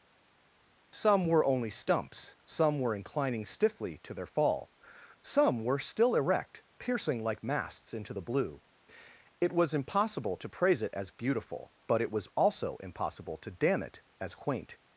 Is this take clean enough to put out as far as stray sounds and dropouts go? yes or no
yes